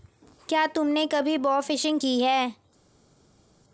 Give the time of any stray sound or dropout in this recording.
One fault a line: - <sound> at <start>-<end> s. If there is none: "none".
none